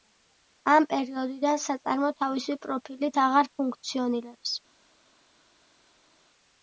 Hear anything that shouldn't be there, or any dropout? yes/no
no